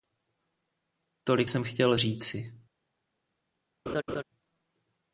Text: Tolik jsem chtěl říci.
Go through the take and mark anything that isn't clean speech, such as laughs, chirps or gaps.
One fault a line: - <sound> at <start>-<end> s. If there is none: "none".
- laugh at 3.9-4.2 s